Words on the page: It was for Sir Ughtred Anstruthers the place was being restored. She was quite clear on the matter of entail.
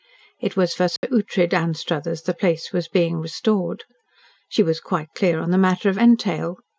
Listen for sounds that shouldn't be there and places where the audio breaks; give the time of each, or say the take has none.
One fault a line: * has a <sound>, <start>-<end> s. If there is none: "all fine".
* has a dropout, 1.0-1.0 s